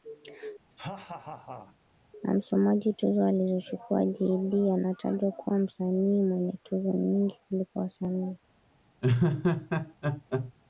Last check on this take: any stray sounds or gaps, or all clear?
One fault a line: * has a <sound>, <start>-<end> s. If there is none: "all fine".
* has a laugh, 0.7-1.8 s
* has a laugh, 9.0-10.5 s